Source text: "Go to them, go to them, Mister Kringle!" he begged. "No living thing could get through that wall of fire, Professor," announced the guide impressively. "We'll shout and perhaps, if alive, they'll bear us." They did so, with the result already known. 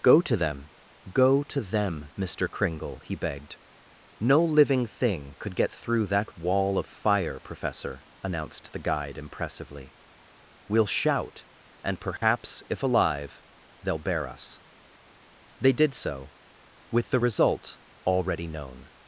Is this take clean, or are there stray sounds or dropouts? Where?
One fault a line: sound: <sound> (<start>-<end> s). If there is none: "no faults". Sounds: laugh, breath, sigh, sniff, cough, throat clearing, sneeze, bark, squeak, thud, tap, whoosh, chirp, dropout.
sound: dropout (12.2-12.2 s)